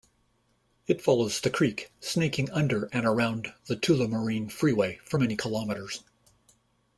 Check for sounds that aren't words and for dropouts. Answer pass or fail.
pass